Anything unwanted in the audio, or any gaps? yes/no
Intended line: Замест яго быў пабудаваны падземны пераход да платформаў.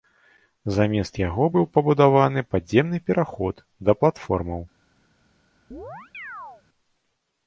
yes